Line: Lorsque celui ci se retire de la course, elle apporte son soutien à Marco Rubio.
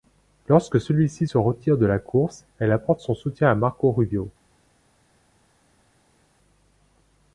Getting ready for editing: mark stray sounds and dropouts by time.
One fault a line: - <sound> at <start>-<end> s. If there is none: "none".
none